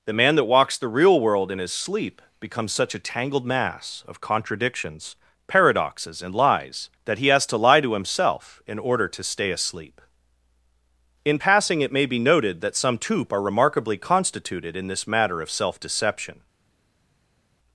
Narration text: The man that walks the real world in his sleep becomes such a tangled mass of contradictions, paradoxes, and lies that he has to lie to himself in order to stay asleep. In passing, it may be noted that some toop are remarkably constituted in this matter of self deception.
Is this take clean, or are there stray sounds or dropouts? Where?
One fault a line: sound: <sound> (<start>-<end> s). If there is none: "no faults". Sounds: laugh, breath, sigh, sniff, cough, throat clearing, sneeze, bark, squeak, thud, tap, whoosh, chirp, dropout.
no faults